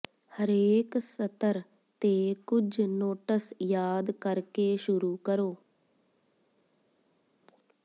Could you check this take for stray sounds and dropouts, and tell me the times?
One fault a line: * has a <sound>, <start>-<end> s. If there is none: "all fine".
all fine